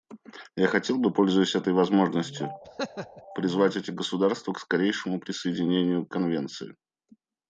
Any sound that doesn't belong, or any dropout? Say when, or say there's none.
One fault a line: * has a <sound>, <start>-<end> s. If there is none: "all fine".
* has a laugh, 2.6-3.2 s